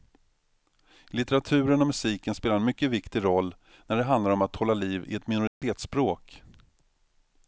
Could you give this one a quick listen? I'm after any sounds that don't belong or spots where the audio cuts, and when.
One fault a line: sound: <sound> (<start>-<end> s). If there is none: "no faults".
sound: dropout (5.5-5.6 s)